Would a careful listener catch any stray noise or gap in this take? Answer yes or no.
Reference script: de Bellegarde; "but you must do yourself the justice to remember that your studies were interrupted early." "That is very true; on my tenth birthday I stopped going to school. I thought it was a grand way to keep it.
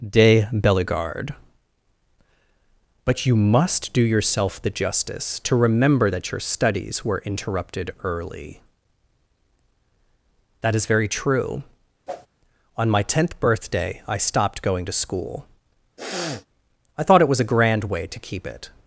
yes